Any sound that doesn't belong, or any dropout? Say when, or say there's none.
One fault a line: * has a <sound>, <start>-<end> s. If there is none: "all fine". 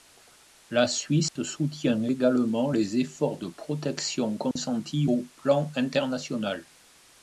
* has a dropout, 1.3-1.4 s
* has a dropout, 4.5-4.6 s